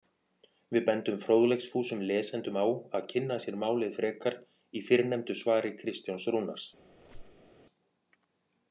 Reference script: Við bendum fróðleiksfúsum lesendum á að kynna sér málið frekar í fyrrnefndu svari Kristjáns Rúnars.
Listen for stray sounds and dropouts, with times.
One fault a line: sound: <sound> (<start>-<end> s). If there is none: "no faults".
sound: squeak (6.9-7.5 s)